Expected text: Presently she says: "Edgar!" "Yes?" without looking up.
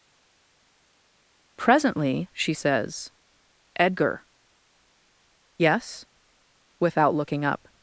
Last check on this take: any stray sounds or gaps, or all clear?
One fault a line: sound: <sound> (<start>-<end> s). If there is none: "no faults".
no faults